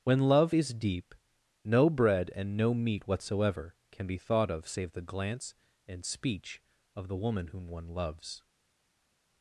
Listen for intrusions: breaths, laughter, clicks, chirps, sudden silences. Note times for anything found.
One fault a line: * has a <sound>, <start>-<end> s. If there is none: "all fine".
all fine